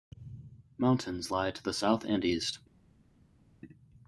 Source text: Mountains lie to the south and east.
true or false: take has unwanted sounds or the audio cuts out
false